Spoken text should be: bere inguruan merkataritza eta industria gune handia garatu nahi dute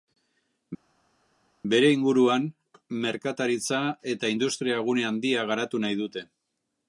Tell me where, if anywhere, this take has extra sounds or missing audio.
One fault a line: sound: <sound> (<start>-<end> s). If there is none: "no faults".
no faults